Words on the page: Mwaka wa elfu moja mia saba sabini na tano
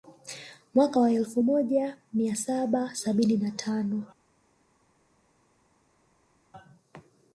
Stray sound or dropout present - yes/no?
no